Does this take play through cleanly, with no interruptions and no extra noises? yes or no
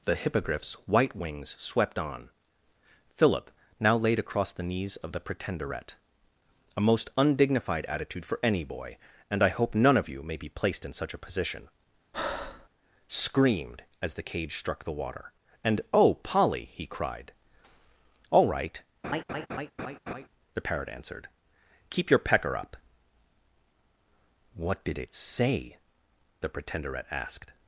no